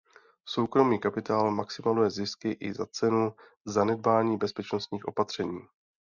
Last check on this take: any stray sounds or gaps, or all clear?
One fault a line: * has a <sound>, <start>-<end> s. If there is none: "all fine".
all fine